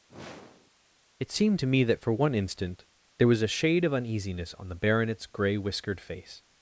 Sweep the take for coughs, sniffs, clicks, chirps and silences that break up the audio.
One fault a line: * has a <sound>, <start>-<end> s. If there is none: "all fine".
* has a sniff, 0.1-0.7 s